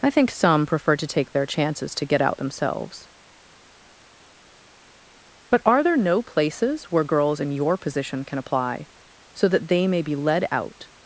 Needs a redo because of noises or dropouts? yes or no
no